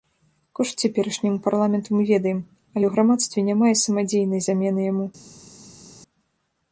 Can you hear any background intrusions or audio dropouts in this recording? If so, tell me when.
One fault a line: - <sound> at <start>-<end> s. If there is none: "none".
none